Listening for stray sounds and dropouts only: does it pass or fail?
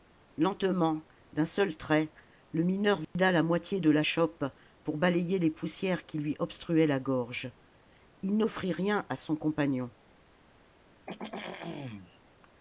fail